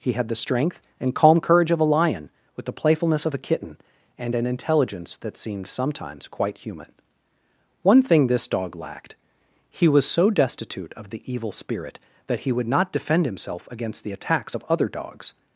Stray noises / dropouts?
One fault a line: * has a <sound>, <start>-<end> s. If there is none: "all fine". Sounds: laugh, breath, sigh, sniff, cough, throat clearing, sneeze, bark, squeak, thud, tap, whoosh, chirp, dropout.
all fine